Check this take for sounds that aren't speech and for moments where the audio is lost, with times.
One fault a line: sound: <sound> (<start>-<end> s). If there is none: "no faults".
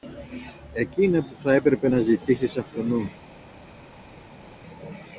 no faults